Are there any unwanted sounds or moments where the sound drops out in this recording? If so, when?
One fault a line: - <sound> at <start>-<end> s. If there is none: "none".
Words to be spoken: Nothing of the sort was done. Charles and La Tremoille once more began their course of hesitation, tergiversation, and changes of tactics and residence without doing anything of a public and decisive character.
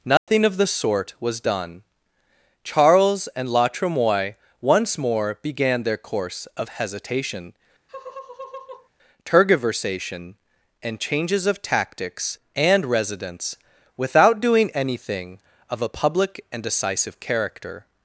- dropout at 0.2-0.3 s
- laugh at 7.9-8.9 s